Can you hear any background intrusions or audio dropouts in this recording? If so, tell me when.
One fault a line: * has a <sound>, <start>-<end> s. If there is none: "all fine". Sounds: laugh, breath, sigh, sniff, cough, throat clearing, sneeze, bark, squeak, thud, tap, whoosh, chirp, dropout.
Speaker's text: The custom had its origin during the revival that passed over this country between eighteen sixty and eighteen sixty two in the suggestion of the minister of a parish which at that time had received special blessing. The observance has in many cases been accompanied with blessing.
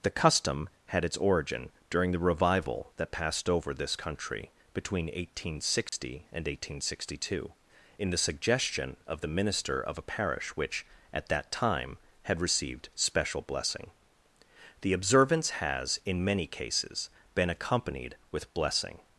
* has a dropout, 5.9-5.9 s